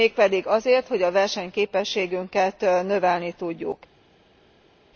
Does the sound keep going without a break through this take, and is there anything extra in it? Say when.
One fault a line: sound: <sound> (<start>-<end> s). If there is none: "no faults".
no faults